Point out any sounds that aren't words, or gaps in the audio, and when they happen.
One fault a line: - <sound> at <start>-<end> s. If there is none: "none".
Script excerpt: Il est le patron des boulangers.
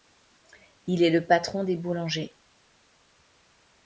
none